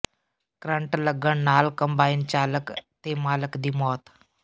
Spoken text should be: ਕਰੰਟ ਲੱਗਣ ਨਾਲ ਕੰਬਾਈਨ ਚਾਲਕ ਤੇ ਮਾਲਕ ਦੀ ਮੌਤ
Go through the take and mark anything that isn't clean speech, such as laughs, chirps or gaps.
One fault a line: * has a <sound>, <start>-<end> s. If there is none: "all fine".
all fine